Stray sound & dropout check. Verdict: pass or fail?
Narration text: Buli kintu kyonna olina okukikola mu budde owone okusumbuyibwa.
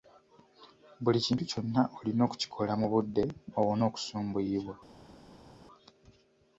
pass